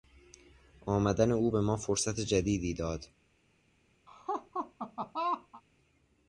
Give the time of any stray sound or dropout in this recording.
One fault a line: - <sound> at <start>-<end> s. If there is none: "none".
- laugh at 4.1-5.6 s